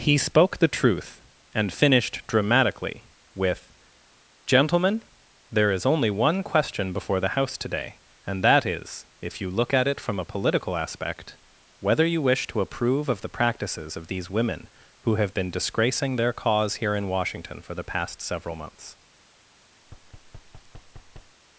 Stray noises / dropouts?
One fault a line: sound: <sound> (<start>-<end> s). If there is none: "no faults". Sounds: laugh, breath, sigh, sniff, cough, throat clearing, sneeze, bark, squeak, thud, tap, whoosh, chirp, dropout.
sound: thud (19.8-21.4 s)